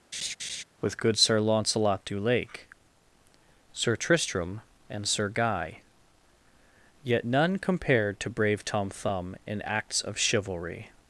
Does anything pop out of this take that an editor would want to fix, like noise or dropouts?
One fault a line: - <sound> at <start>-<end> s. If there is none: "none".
- laugh at 0.1-0.6 s